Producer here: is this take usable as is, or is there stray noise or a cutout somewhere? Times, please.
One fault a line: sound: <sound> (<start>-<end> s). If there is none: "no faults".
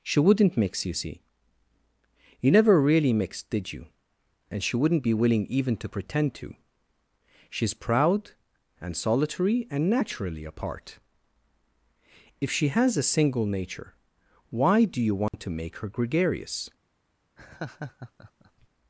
sound: dropout (15.3-15.3 s)
sound: laugh (17.4-18.7 s)